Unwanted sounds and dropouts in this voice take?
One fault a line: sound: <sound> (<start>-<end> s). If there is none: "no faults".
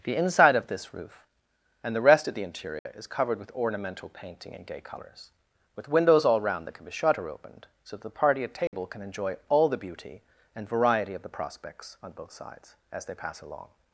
sound: dropout (2.8-2.9 s)
sound: dropout (8.7-8.7 s)